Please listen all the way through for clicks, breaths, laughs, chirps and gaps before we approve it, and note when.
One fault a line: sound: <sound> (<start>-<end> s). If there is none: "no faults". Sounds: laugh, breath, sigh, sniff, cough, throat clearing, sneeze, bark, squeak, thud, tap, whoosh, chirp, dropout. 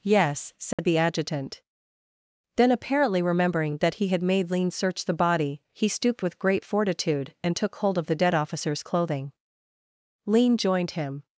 sound: dropout (0.7-0.8 s)